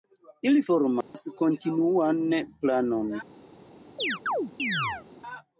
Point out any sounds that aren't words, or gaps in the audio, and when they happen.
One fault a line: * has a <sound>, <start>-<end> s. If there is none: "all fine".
* has a dropout, 1.0-1.1 s
* has a chirp, 4.0-5.1 s